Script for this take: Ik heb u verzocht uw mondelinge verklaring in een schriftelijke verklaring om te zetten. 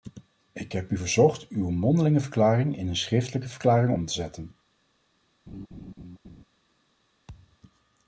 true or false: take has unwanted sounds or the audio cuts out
true